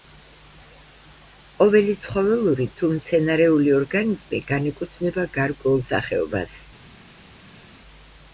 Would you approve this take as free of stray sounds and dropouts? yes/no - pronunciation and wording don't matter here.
yes